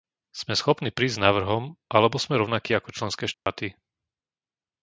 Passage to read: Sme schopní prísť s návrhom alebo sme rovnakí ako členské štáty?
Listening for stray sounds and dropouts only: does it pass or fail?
fail